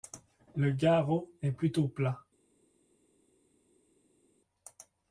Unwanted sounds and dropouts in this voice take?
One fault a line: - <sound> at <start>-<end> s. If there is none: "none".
none